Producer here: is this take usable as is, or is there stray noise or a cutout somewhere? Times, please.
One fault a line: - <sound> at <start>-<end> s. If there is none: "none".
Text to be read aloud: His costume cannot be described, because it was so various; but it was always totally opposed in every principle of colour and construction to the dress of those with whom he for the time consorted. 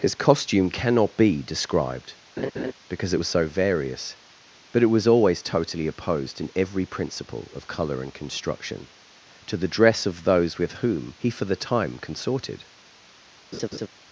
- laugh at 2.4-2.7 s
- laugh at 13.5-13.9 s